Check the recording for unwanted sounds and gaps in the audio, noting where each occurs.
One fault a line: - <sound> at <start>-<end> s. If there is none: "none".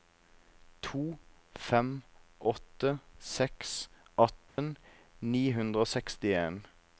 - dropout at 4.5-4.6 s